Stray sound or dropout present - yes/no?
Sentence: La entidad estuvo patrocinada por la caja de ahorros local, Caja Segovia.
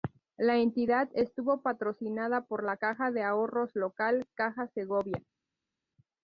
no